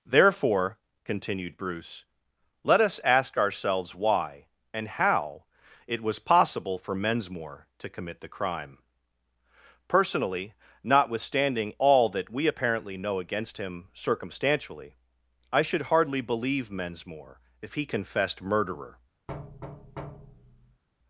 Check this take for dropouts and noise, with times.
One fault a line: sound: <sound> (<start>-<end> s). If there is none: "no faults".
sound: thud (19.3-20.8 s)